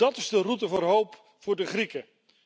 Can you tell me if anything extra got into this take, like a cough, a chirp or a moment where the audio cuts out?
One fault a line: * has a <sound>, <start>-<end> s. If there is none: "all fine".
all fine